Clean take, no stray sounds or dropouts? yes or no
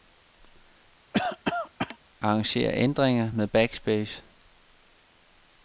no